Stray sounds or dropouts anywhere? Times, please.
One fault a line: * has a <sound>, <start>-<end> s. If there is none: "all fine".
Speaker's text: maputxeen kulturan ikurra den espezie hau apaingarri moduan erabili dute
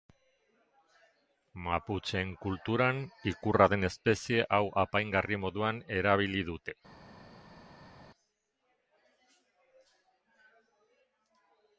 all fine